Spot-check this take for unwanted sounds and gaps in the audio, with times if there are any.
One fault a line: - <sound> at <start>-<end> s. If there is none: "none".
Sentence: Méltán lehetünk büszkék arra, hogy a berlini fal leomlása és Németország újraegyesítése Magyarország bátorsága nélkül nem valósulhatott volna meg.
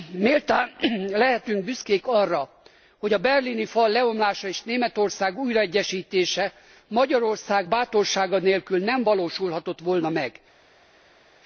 none